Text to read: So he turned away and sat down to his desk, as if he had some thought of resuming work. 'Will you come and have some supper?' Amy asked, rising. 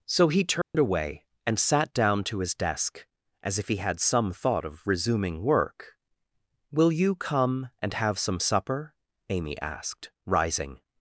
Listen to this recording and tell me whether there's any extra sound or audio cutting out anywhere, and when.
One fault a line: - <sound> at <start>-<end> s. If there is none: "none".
- dropout at 0.6-0.7 s